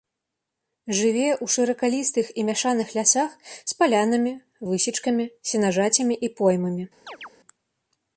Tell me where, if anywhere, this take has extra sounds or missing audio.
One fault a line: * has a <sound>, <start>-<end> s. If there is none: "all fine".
* has a chirp, 7.1-7.3 s